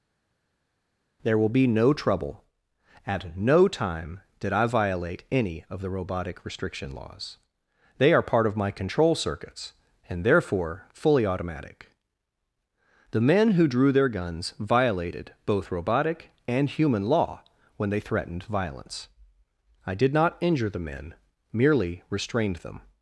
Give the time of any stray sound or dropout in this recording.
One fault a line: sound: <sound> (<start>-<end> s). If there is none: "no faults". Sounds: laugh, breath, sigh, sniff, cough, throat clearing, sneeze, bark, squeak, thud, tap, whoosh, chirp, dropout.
no faults